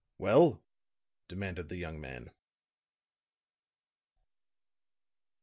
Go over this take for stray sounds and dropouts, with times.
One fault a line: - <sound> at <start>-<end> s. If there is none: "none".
none